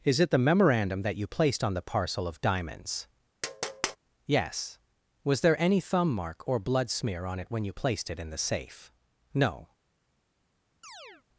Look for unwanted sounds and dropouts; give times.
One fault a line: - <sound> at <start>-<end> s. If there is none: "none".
- tap at 3.4-4.0 s
- chirp at 10.8-11.2 s